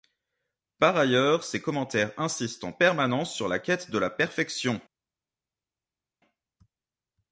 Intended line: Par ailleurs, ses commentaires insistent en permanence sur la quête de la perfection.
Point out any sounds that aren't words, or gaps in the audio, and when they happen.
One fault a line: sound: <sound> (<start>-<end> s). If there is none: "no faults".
no faults